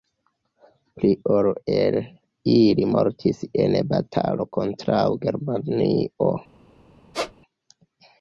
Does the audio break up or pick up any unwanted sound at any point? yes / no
yes